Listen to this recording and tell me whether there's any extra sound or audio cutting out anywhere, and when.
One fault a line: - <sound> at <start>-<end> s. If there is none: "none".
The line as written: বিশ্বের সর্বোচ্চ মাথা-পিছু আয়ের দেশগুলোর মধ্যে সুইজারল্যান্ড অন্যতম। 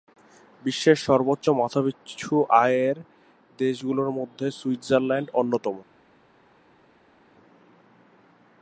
none